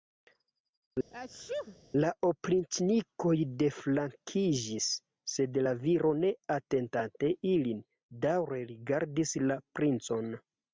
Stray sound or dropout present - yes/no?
yes